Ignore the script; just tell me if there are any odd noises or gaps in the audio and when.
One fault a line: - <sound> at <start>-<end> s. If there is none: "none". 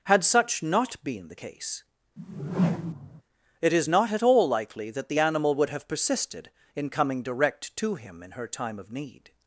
- whoosh at 2.2-3.2 s